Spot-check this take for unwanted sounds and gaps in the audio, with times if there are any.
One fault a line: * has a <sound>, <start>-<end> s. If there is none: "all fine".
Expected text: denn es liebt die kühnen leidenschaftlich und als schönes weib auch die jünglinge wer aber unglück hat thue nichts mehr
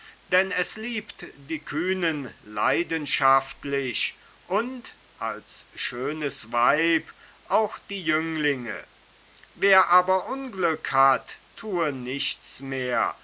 all fine